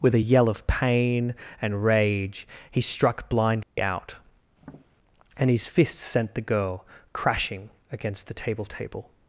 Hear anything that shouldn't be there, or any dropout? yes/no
yes